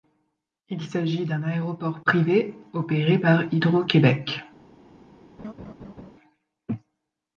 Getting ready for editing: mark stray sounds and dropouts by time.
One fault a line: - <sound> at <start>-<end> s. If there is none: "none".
- laugh at 5.4-6.1 s